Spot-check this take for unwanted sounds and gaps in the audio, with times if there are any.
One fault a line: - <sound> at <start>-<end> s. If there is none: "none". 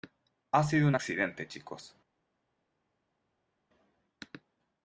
none